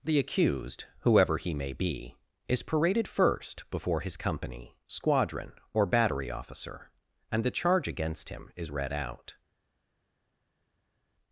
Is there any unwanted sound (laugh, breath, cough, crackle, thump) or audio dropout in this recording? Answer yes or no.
no